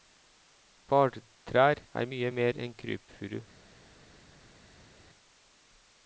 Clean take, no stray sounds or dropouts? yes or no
yes